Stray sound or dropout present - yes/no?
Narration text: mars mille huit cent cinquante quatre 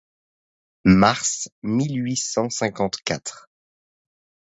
no